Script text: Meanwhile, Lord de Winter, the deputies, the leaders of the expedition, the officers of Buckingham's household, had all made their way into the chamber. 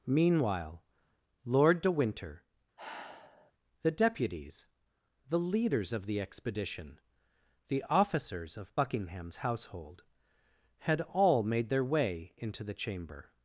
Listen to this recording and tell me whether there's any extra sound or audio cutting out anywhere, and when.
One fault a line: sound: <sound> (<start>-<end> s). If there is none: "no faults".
sound: sigh (2.8-3.5 s)